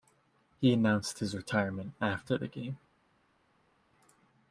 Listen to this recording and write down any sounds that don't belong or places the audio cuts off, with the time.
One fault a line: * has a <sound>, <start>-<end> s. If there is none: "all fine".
all fine